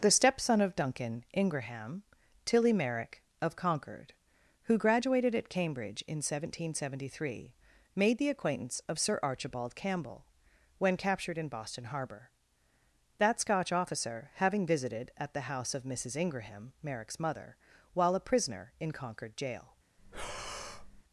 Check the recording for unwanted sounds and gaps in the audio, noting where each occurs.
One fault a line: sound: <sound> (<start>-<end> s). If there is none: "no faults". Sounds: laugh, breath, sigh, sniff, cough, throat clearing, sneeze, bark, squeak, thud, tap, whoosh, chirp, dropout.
sound: breath (20.0-21.0 s)